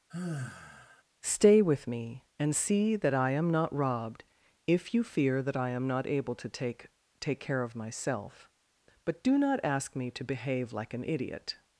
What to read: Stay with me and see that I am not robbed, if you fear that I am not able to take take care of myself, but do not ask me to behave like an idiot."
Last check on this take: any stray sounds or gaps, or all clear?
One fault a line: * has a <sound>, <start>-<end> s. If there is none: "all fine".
* has a sigh, 0.1-1.0 s